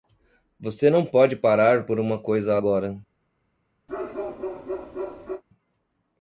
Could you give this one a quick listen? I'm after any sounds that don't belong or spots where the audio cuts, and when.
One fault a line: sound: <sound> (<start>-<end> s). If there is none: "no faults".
sound: bark (3.9-5.4 s)